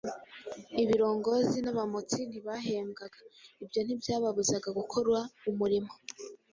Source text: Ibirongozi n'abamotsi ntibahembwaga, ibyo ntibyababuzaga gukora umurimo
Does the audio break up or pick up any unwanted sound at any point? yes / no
no